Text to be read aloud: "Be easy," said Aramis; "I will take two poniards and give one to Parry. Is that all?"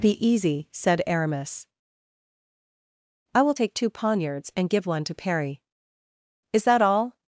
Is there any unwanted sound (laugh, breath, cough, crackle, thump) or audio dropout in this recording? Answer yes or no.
no